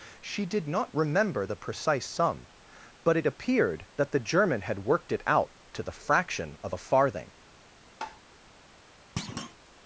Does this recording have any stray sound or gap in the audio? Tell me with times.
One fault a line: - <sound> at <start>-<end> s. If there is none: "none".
- tap at 8.0-8.2 s
- thud at 9.2-9.6 s